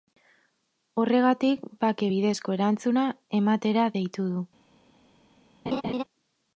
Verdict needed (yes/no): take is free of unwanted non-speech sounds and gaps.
no